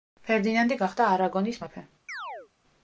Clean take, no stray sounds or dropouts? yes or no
no